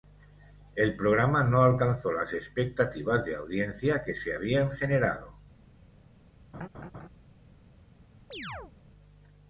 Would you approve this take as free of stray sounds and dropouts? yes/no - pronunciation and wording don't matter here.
no